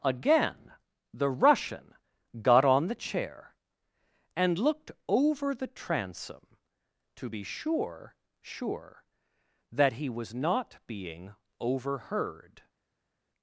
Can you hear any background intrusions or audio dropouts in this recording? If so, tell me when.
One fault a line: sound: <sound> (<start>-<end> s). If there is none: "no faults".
no faults